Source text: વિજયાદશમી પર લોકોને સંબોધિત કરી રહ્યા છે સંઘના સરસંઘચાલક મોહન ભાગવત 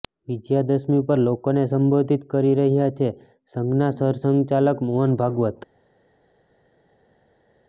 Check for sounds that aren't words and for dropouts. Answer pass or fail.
pass